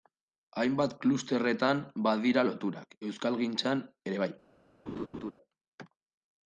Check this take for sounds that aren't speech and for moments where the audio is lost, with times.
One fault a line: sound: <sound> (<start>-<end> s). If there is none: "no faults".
sound: laugh (4.9-5.3 s)